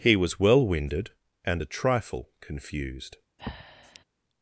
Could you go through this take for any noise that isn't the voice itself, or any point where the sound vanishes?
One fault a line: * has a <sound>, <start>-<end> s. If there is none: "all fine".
* has a breath, 3.4-4.0 s